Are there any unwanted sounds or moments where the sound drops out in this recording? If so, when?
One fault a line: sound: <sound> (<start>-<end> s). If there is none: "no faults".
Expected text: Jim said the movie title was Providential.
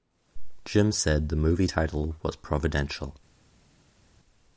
no faults